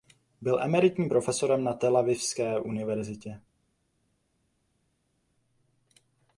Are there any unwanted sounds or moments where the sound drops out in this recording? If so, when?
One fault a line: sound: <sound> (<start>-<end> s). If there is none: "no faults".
no faults